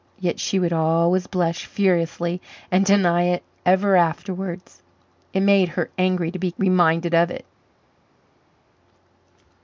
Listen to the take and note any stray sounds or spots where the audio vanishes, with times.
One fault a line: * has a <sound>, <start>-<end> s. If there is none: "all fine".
all fine